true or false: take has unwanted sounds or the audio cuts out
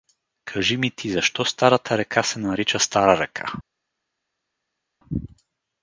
false